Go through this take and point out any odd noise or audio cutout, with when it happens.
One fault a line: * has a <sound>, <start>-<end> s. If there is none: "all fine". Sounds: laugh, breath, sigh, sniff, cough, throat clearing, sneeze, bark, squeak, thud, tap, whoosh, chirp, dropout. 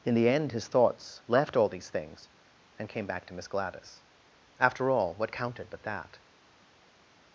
all fine